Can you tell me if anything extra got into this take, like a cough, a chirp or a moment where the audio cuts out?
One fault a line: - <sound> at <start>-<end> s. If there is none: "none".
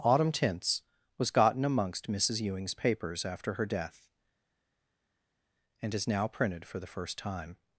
none